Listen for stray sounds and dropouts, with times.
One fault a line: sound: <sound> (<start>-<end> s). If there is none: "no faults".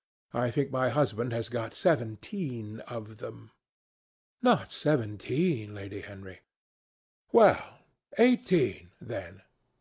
no faults